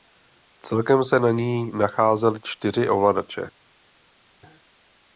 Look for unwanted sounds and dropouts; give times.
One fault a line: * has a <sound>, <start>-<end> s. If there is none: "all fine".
all fine